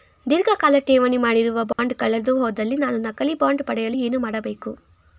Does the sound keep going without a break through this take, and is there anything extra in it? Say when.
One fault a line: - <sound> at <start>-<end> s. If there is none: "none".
- dropout at 1.7-1.8 s